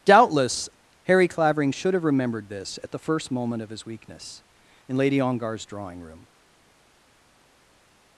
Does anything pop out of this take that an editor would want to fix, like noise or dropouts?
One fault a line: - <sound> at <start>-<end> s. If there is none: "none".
none